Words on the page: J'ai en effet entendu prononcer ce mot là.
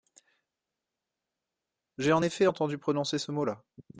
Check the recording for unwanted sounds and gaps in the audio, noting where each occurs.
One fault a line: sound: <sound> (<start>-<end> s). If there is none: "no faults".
no faults